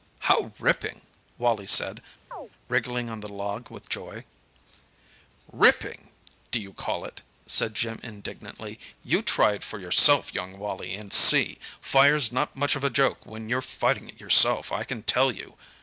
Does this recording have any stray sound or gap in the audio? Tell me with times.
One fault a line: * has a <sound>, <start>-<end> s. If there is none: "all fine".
* has a chirp, 2.3-2.5 s